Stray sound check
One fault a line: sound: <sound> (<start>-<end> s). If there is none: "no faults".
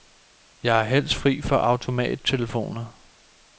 no faults